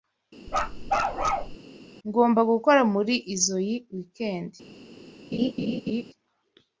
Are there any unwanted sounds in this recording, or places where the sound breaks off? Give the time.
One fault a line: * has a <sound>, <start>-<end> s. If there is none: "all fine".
* has a bark, 0.5-1.6 s
* has a laugh, 5.3-6.1 s